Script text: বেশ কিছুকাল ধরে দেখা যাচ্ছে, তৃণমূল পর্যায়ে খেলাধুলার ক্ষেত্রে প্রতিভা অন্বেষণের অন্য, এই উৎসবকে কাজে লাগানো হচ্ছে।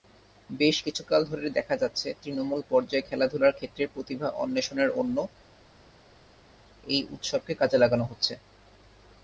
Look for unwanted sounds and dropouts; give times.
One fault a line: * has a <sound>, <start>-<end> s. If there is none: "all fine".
all fine